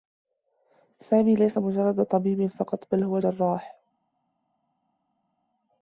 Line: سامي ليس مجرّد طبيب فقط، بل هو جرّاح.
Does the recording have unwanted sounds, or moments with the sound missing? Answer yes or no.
no